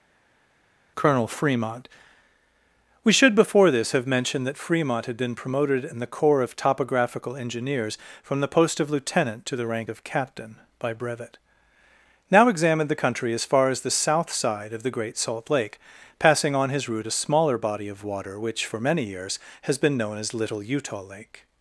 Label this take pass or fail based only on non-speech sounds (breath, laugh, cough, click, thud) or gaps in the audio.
pass